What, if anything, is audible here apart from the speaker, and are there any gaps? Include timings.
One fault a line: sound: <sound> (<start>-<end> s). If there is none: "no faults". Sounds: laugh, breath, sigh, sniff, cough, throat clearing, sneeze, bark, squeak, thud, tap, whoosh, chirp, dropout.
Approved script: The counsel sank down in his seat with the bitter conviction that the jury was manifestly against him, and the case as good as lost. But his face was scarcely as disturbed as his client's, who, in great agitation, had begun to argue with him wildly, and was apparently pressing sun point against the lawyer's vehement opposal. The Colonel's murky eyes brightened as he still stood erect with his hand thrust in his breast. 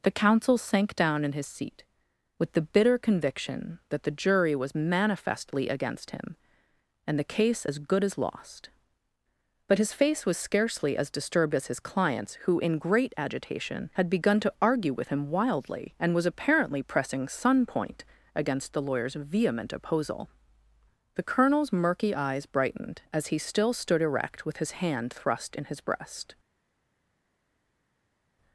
no faults